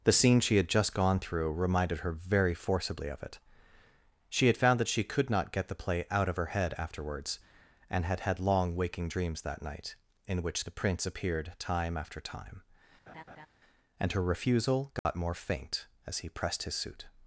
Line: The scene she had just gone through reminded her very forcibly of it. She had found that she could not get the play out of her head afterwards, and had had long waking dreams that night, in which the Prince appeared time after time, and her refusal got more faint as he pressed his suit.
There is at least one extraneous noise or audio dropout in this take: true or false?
true